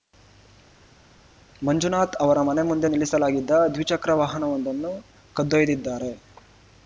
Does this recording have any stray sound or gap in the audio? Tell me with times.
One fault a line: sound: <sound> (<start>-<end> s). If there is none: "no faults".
no faults